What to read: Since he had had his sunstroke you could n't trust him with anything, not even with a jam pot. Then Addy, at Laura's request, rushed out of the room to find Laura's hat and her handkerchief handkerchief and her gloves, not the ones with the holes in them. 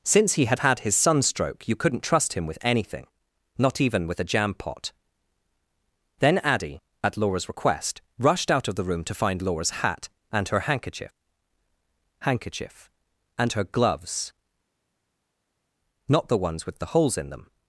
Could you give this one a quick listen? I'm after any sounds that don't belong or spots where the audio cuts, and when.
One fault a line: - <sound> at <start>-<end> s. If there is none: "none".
none